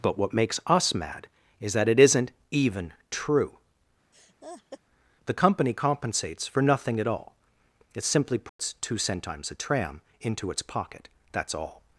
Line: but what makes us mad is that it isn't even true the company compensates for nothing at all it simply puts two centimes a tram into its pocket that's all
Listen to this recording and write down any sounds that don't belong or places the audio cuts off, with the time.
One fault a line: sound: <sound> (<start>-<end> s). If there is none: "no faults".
sound: laugh (4.1-4.8 s)
sound: dropout (8.5-8.6 s)